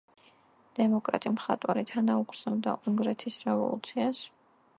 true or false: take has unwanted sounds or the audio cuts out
false